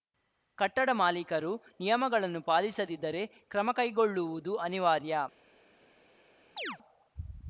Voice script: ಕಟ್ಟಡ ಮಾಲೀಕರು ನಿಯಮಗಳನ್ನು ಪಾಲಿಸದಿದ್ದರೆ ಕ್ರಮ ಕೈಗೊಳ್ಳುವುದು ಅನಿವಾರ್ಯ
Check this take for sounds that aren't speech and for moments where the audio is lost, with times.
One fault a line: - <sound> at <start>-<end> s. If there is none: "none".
- chirp at 6.6-6.8 s